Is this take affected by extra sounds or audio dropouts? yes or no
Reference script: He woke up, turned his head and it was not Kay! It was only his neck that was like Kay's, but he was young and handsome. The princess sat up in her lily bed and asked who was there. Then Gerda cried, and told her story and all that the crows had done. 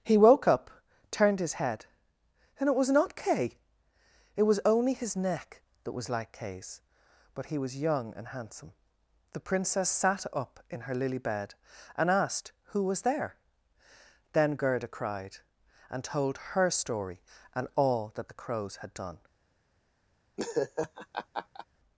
yes